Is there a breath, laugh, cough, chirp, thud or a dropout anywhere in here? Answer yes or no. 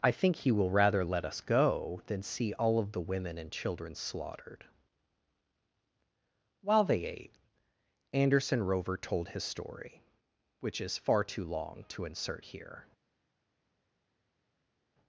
no